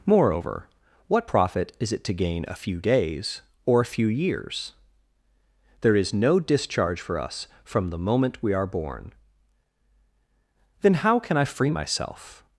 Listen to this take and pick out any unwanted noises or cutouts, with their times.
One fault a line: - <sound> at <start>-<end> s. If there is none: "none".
none